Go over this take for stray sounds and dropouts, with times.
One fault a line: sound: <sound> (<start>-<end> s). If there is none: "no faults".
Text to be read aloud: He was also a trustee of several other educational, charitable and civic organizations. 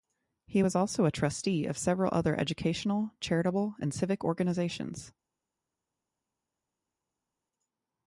no faults